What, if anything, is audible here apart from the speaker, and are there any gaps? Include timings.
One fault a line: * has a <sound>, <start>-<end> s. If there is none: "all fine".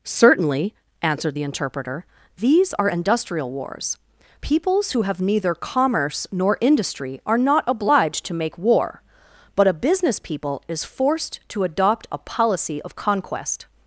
all fine